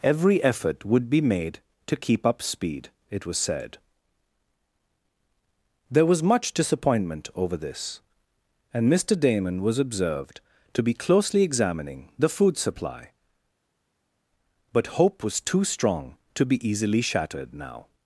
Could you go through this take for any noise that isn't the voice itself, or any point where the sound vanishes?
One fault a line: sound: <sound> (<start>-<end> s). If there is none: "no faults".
no faults